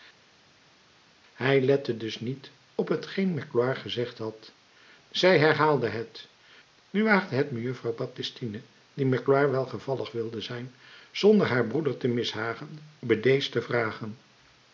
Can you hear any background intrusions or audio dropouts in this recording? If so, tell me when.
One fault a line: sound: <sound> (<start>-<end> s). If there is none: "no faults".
no faults